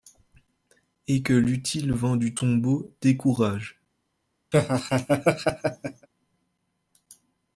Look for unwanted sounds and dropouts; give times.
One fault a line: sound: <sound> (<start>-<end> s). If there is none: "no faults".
sound: laugh (4.5-6.1 s)